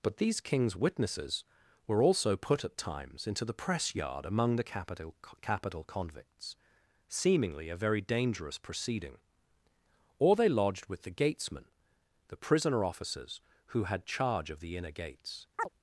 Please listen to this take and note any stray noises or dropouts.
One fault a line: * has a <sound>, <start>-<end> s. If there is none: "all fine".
* has a chirp, 15.6-15.7 s